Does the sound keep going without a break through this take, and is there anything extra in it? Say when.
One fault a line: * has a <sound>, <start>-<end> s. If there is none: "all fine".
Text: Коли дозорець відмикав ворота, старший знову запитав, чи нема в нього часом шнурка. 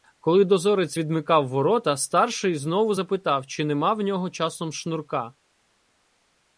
all fine